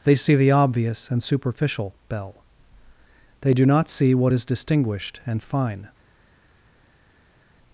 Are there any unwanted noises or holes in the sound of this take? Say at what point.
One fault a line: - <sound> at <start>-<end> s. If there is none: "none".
none